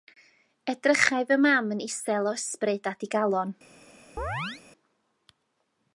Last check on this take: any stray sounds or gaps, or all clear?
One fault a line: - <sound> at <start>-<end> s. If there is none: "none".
- chirp at 4.2-4.6 s